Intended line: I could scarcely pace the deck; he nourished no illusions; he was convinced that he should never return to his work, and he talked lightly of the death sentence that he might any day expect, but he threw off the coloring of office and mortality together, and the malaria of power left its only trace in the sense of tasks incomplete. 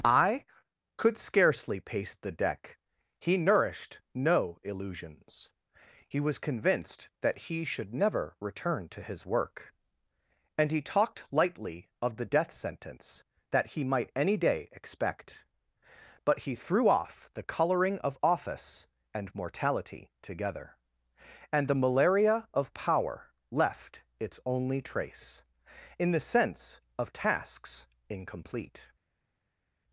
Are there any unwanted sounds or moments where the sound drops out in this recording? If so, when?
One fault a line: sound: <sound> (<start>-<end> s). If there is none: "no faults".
no faults